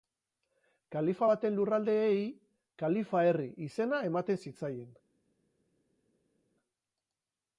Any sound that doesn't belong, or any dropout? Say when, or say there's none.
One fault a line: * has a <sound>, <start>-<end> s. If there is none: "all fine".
all fine